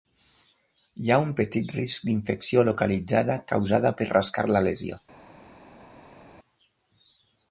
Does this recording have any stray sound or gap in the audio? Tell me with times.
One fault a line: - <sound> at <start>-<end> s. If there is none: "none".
none